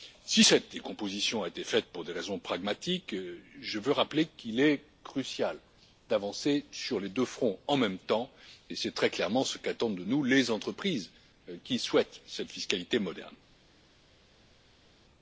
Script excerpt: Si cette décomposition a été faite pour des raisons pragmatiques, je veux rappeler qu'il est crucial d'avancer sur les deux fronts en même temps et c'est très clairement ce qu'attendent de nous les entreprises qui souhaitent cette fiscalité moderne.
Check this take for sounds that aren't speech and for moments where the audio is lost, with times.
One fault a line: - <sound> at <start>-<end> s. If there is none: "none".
none